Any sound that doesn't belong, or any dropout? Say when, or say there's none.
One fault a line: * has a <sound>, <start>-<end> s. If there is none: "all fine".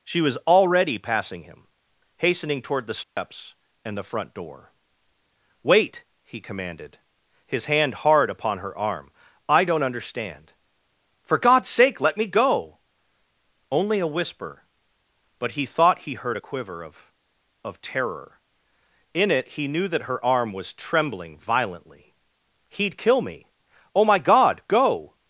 * has a dropout, 3.0-3.2 s